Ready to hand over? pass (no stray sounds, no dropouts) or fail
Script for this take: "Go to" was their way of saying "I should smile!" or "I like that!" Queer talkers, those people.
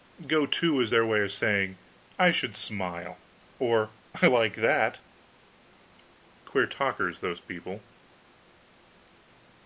pass